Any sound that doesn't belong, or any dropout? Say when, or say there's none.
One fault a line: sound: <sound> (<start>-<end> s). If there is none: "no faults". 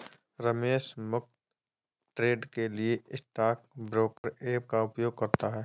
sound: dropout (4.2-4.2 s)